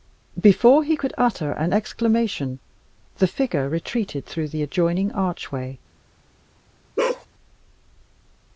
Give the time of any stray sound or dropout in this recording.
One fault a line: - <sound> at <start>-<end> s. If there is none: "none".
- bark at 7.0-7.3 s